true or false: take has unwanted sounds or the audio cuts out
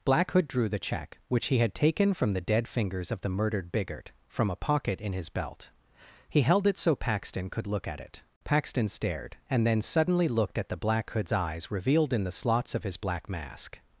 false